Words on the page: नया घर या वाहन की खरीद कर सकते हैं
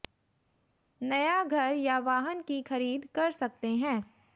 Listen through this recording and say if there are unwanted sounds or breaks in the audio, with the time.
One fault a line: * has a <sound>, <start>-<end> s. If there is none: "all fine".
all fine